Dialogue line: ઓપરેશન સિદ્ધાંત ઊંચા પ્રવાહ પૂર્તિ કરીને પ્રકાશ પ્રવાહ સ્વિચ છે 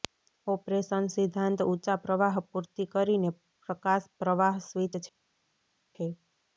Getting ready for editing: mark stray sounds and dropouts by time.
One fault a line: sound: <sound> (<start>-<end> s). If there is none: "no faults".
no faults